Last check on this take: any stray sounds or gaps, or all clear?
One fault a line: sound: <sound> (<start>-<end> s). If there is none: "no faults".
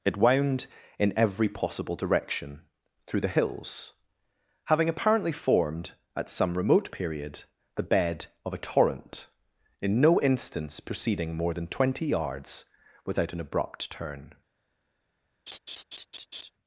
sound: laugh (15.5-16.5 s)